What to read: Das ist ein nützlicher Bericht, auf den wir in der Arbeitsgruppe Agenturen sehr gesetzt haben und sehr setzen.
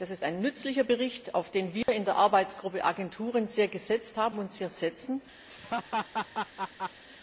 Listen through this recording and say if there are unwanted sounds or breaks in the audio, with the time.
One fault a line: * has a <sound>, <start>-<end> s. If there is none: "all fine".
* has a dropout, 1.8-1.9 s
* has a laugh, 5.5-7.0 s